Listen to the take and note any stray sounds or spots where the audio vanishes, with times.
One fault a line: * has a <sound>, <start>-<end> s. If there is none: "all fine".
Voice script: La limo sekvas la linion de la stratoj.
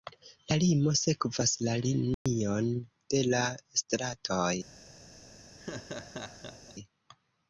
* has a dropout, 2.1-2.3 s
* has a laugh, 5.6-6.8 s